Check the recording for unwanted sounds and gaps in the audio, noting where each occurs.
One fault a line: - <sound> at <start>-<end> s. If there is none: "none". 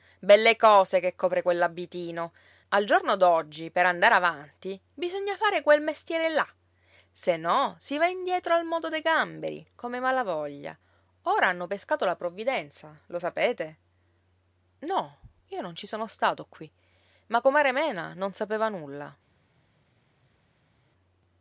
none